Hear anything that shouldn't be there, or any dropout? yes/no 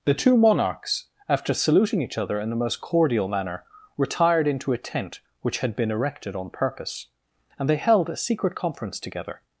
no